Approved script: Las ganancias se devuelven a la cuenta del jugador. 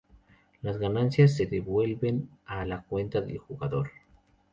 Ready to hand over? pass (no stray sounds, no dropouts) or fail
pass